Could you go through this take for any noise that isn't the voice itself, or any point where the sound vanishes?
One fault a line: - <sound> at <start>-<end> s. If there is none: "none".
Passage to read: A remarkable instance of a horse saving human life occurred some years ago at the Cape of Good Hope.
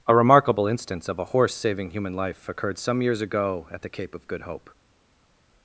none